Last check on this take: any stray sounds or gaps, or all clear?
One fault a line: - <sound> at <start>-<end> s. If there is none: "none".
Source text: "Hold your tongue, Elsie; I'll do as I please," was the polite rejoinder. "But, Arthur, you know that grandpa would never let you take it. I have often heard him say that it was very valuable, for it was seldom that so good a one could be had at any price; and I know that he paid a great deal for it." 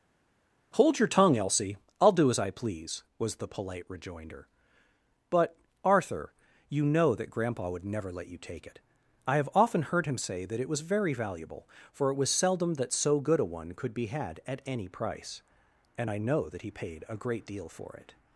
none